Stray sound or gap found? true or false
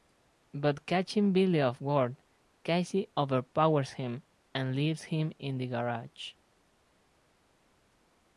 false